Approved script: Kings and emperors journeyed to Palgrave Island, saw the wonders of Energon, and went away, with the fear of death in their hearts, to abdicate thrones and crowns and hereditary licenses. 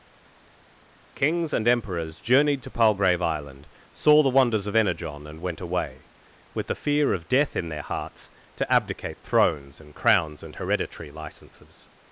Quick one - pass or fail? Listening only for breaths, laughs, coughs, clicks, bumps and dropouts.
pass